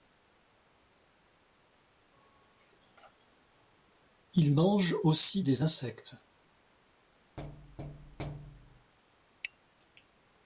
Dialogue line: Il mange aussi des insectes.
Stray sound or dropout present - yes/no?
yes